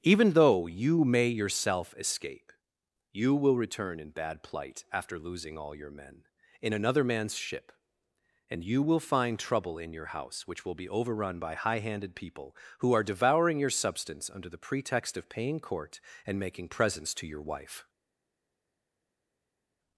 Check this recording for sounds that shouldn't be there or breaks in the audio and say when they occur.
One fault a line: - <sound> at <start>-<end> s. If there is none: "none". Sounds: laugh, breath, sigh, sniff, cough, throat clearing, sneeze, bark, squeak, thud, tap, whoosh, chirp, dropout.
none